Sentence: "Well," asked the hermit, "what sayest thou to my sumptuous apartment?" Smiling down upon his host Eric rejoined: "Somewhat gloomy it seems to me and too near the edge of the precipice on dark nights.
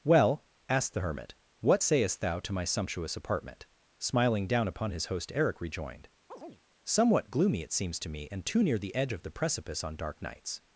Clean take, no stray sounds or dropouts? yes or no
no